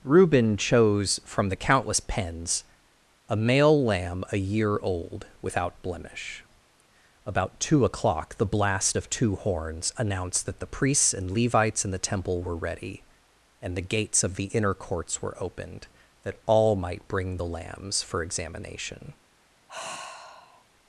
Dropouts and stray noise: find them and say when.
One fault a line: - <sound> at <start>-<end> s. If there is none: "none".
- sigh at 19.7-20.6 s